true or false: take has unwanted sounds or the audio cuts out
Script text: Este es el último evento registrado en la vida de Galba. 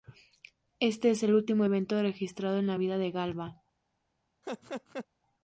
true